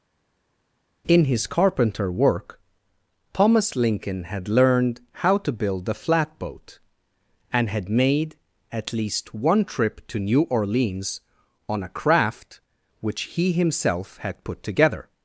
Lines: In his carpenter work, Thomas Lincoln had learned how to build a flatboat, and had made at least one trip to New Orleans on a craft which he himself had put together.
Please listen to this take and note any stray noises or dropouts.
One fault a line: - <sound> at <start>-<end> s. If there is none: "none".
none